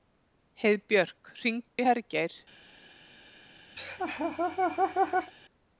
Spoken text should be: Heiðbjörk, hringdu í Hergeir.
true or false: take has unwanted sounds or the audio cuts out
true